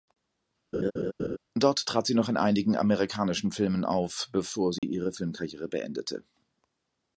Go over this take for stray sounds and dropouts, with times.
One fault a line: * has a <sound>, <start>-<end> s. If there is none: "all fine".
* has a laugh, 0.7-1.4 s
* has a dropout, 4.8-4.8 s